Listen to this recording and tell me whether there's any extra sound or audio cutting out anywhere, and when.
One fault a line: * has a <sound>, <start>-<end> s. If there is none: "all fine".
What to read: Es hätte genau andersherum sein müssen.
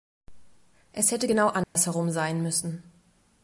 * has a dropout, 1.6-1.8 s